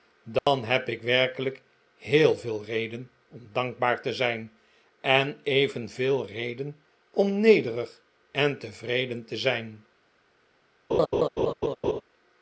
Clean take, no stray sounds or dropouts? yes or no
no